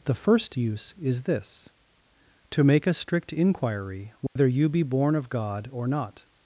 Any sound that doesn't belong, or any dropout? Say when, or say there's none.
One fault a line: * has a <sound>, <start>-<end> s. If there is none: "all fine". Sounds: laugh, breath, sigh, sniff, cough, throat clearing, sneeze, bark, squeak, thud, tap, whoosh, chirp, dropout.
* has a dropout, 4.3-4.4 s